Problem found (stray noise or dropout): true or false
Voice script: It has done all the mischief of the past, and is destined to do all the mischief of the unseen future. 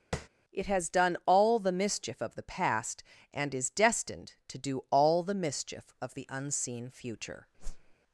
true